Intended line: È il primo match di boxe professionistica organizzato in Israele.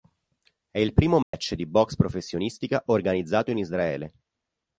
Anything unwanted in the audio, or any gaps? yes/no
yes